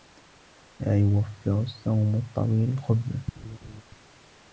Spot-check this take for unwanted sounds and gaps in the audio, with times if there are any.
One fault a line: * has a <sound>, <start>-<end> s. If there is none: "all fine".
* has a laugh, 3.4-3.8 s